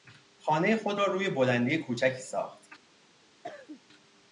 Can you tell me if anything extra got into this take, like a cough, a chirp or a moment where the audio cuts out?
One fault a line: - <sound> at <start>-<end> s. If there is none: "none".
- cough at 3.4-3.8 s